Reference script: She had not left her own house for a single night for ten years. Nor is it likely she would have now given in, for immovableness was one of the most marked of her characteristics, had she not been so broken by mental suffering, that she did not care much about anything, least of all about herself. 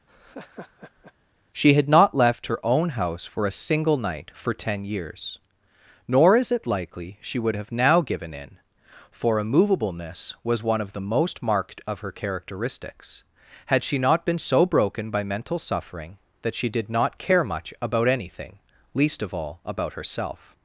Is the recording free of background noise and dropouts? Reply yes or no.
no